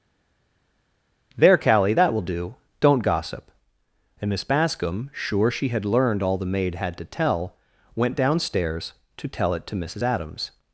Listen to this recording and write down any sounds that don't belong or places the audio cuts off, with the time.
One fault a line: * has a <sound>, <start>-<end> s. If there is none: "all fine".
all fine